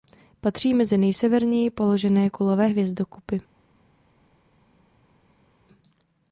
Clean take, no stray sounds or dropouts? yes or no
yes